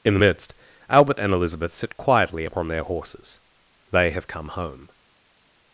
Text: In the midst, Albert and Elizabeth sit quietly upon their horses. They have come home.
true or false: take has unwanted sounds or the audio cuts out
false